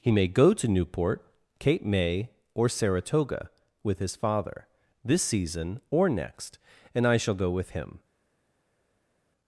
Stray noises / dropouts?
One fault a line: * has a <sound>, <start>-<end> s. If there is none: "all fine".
all fine